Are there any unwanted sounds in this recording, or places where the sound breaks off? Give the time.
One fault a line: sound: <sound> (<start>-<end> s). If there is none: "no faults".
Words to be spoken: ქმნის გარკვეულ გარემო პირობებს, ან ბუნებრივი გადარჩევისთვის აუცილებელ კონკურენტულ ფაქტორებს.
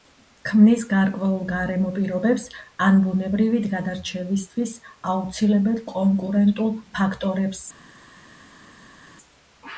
no faults